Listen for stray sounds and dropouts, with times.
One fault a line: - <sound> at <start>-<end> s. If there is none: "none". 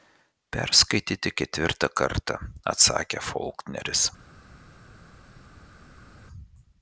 none